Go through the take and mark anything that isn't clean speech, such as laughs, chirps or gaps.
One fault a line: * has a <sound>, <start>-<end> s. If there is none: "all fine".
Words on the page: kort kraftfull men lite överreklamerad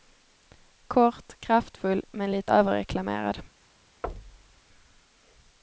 * has a thud, 4.0-4.6 s